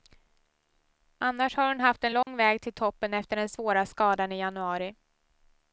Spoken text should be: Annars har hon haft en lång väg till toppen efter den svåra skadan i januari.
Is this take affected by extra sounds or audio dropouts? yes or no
yes